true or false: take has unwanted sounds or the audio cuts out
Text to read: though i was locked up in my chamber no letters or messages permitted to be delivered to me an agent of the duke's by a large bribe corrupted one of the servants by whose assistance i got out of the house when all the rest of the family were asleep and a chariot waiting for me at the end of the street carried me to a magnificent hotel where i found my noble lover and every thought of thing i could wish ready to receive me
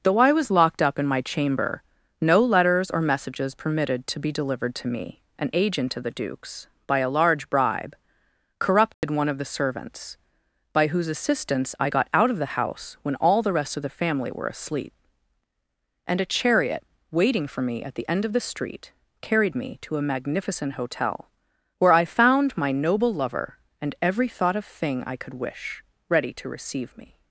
true